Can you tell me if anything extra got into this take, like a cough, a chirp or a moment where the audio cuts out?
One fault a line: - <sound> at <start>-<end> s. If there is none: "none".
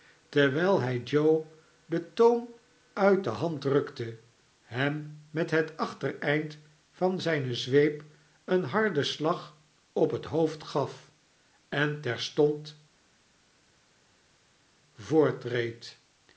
none